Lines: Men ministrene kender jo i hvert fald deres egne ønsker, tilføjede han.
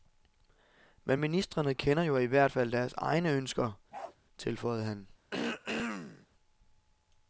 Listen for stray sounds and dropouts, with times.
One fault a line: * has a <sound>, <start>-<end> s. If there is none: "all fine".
* has a bark, 3.9-4.2 s
* has a throat clearing, 5.3-6.3 s